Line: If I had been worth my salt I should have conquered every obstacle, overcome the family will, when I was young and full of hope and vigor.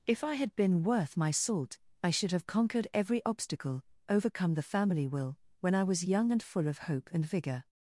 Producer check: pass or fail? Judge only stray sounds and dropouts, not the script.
pass